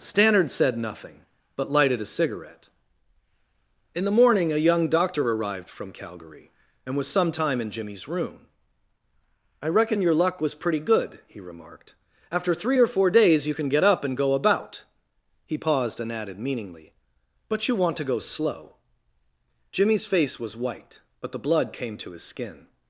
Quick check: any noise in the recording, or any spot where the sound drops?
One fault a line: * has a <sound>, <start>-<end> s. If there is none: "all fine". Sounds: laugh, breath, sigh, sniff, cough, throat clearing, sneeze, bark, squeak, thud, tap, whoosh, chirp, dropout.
all fine